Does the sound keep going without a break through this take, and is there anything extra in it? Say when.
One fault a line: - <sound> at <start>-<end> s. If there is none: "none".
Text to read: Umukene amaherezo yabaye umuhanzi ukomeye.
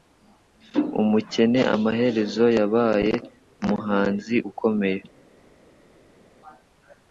none